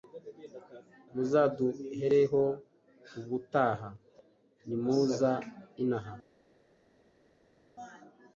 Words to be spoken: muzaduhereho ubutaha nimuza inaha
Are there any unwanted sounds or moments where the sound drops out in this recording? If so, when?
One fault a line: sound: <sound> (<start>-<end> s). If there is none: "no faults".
no faults